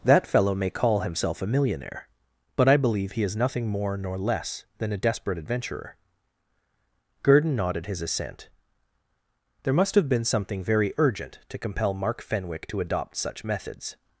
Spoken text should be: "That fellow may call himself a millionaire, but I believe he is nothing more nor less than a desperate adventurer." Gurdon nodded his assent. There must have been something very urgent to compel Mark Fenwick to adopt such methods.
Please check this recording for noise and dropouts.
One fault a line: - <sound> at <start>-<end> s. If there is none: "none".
none